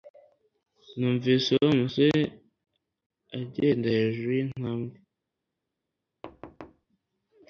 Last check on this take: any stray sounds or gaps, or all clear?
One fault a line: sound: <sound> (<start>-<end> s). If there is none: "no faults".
sound: thud (6.2-6.9 s)